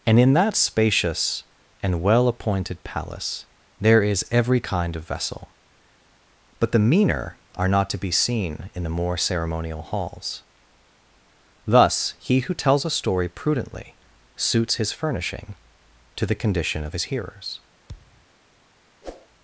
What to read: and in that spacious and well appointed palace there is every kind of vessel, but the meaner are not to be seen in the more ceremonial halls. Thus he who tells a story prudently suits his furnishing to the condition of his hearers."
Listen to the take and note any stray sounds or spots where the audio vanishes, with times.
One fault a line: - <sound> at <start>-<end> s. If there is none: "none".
- thud at 17.9-18.3 s
- whoosh at 19.0-19.3 s